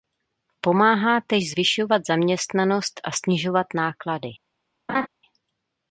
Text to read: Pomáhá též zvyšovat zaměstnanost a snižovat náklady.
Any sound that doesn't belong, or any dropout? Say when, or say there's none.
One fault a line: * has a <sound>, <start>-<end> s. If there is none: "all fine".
* has a laugh, 4.9-5.1 s